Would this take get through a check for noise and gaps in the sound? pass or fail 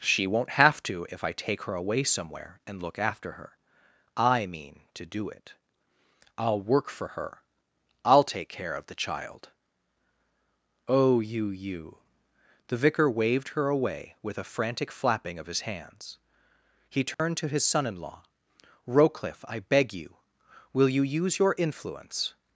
fail